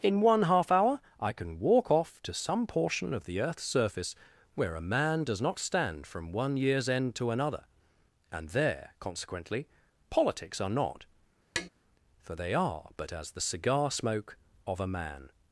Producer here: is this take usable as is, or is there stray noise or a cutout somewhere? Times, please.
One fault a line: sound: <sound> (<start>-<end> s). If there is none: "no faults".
sound: tap (11.6-11.7 s)